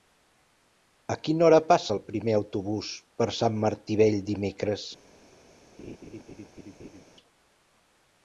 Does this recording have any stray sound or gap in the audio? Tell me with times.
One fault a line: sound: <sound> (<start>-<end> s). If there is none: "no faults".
sound: laugh (5.8-7.0 s)